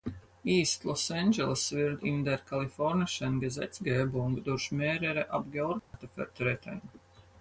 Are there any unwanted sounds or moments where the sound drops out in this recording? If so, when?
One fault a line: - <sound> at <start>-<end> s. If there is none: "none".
- dropout at 5.8-5.9 s